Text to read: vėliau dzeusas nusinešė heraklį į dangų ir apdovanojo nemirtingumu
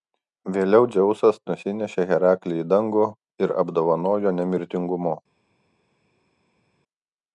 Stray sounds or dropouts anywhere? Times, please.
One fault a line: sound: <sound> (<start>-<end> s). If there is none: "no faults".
no faults